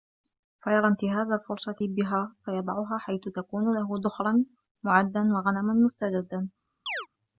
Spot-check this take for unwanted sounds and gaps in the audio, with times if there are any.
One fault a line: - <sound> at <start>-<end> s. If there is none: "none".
- chirp at 6.9-7.1 s